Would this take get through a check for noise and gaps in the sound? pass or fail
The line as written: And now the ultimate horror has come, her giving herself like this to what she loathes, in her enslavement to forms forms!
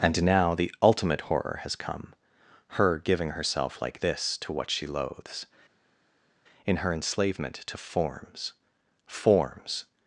pass